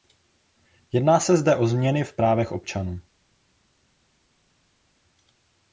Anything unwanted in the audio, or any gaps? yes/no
no